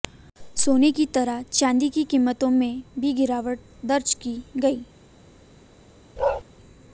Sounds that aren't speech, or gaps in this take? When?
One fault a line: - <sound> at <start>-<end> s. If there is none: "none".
- bark at 6.2-6.4 s